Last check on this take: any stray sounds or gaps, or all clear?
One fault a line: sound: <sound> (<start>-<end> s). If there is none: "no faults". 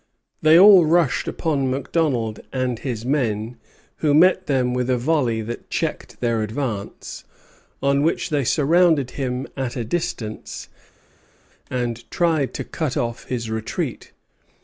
no faults